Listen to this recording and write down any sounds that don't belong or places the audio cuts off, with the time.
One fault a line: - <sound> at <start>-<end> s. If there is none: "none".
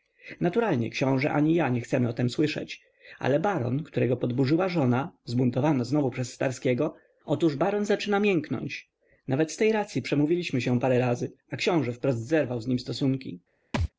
- thud at 13.7-13.9 s